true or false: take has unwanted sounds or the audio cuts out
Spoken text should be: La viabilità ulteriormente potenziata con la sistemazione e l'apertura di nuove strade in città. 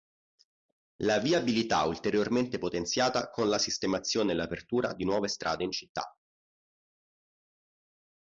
false